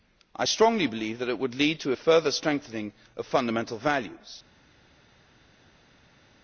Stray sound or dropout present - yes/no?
no